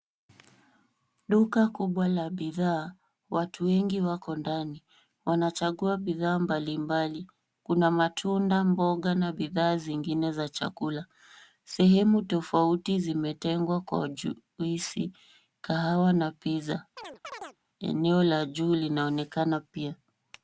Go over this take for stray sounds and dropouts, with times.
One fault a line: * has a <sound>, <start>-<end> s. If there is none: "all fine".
* has a chirp, 17.0-17.6 s